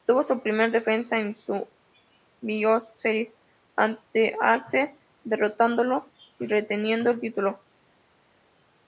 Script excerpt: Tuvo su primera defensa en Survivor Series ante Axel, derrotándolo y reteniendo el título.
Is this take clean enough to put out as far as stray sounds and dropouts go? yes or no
yes